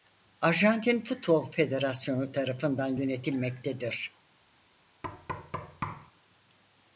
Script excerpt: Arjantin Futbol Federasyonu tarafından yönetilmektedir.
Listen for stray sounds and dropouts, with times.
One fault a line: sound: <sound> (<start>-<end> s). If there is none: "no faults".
sound: thud (5.0-6.1 s)